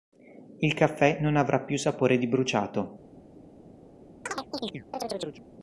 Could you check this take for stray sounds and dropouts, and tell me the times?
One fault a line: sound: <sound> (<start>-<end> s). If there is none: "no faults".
sound: chirp (4.3-5.4 s)